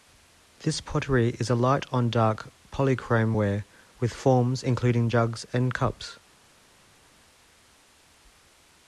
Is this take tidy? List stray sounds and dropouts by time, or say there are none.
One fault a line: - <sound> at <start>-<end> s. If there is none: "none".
none